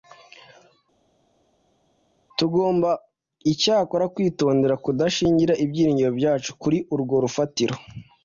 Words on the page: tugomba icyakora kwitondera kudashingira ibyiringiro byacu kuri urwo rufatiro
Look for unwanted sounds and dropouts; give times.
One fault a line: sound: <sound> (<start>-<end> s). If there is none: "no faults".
no faults